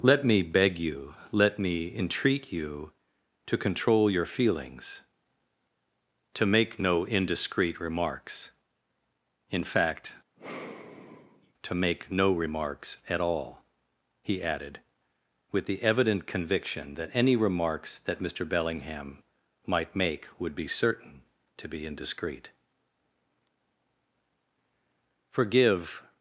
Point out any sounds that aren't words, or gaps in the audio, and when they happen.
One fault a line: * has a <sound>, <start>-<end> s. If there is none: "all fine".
* has a sigh, 10.4-11.5 s